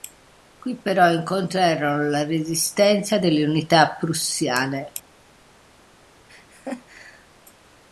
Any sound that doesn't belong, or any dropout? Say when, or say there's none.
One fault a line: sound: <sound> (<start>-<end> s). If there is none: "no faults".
sound: laugh (6.3-7.3 s)